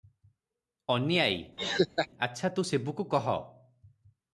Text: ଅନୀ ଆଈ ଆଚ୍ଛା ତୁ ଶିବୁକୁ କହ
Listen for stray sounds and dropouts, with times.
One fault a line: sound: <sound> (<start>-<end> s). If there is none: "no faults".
sound: laugh (1.6-2.1 s)